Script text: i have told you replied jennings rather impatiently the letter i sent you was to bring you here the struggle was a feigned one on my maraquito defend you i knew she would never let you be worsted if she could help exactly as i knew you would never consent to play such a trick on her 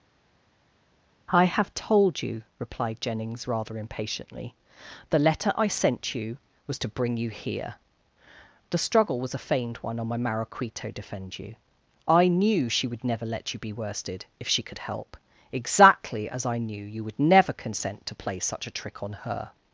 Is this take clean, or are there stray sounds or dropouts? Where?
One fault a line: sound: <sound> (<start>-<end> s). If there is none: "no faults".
no faults